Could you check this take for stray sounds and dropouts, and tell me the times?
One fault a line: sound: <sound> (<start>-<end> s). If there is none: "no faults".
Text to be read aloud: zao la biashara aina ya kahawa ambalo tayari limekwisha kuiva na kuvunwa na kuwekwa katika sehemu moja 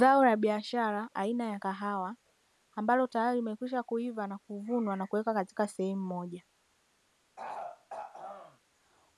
sound: throat clearing (7.4-8.6 s)